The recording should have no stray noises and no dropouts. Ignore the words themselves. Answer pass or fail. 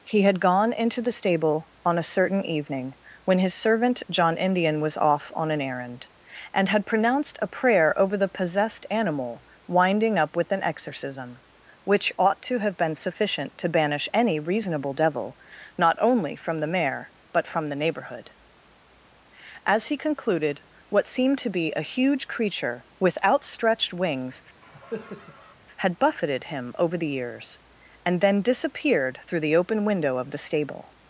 fail